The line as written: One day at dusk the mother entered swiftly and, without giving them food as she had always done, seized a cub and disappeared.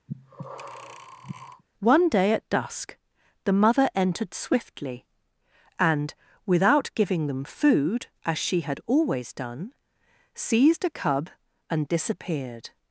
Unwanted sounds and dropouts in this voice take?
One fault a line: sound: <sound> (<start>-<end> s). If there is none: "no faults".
sound: breath (0.1-1.6 s)